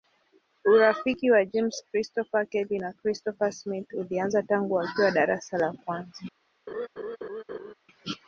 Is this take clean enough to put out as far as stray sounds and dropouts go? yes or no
no